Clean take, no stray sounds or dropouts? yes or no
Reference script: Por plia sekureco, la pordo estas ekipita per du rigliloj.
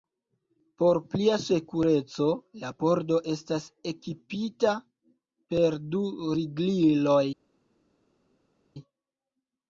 yes